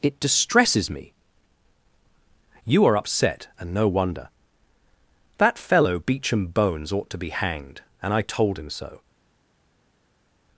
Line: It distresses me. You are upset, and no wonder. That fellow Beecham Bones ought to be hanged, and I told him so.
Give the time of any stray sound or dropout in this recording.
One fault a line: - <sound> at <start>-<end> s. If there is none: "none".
none